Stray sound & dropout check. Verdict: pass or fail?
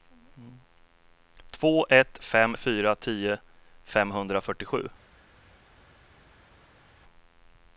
pass